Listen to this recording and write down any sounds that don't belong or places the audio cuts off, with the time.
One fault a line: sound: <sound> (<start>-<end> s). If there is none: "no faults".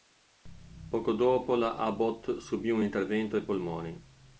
no faults